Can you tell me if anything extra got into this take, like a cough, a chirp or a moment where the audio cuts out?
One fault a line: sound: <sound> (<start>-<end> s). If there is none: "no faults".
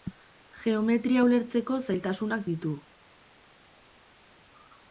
no faults